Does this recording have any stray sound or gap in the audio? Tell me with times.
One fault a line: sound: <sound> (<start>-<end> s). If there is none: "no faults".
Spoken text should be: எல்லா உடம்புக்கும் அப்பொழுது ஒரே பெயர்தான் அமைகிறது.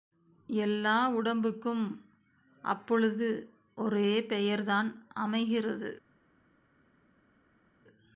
no faults